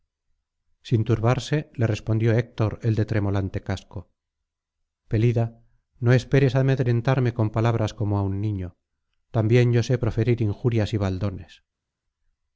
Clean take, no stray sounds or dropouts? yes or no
yes